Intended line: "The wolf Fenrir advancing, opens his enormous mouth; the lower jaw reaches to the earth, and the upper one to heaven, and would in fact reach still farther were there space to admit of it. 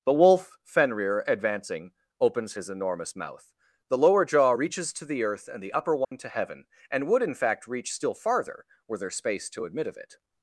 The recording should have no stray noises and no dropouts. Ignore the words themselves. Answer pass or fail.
fail